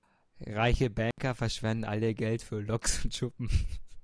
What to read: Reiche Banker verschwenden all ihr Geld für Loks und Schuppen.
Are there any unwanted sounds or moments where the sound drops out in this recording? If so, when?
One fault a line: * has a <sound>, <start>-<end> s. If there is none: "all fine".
* has a dropout, 1.1-1.2 s